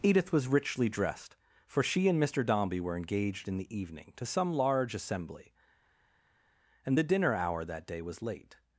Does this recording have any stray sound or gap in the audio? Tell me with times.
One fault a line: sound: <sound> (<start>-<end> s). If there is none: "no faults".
no faults